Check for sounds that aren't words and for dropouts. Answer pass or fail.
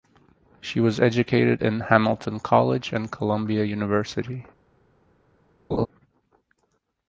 fail